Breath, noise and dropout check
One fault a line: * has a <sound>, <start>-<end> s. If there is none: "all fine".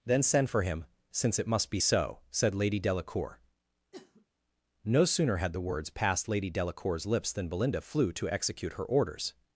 * has a sniff, 3.9-4.3 s